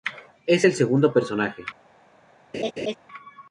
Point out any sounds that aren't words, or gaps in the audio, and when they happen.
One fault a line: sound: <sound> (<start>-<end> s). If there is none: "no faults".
sound: laugh (2.5-3.0 s)